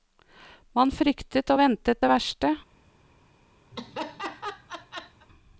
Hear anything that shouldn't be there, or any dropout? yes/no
yes